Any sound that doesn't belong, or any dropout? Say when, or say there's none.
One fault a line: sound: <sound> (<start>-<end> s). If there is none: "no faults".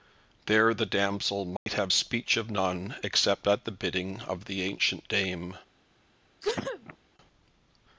sound: dropout (1.6-1.7 s)
sound: sneeze (6.4-7.0 s)